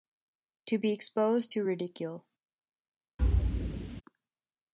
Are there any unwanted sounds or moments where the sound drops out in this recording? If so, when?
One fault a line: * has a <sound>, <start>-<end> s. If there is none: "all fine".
* has a thud, 3.2-4.0 s